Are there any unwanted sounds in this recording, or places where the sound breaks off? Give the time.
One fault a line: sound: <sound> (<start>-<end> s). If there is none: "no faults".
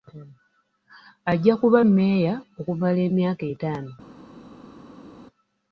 no faults